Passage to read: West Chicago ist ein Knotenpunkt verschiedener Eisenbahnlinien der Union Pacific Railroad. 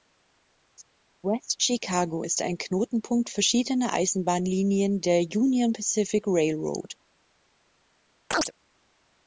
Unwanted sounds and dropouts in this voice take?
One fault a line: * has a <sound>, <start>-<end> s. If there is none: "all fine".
* has a chirp, 8.3-8.5 s